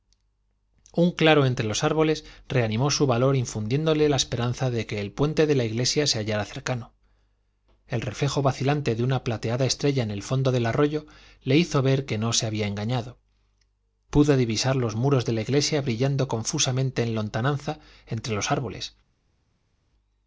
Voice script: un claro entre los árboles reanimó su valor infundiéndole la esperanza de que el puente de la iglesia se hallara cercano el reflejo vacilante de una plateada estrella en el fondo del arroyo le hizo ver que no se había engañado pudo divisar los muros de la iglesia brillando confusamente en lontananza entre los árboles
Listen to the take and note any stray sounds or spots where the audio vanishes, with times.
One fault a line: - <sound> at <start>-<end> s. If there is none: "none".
none